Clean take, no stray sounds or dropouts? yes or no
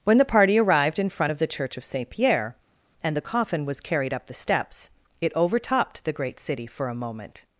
yes